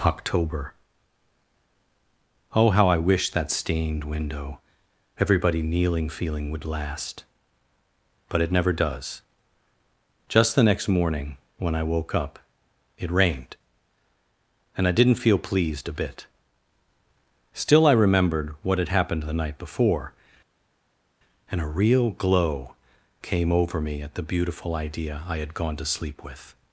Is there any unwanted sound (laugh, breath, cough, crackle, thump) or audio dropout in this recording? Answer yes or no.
no